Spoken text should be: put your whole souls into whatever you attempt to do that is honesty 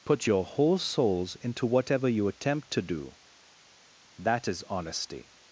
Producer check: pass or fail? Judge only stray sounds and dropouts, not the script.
pass